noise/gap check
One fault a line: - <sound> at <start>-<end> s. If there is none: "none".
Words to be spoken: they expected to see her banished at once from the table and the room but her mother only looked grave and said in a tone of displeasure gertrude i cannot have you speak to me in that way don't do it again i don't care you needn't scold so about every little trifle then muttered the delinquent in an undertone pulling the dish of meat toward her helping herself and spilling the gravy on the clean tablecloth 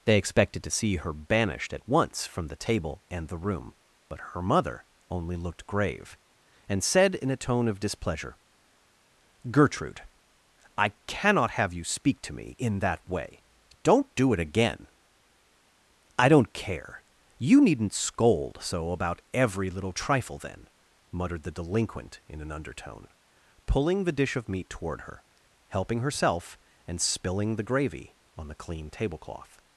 none